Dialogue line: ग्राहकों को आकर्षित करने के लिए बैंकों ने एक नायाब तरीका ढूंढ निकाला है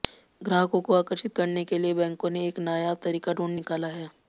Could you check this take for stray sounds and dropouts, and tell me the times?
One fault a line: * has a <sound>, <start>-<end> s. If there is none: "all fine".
all fine